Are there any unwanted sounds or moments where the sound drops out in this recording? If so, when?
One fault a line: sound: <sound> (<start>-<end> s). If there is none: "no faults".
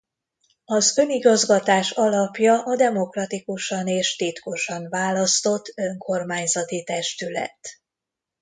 no faults